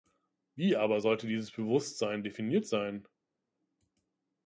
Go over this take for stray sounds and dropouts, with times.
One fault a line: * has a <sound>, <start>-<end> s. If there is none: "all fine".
all fine